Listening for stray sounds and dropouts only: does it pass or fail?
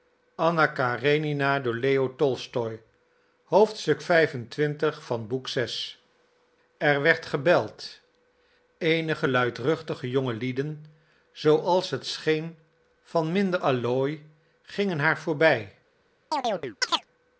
fail